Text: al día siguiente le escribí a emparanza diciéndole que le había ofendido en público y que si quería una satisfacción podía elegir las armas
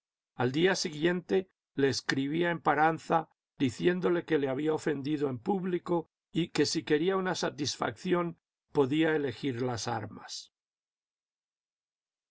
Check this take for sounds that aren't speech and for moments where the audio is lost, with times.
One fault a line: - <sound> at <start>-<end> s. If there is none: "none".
none